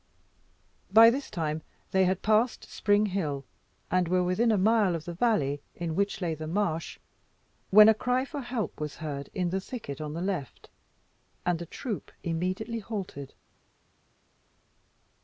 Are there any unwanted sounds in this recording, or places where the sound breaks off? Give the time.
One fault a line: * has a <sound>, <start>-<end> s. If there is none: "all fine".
all fine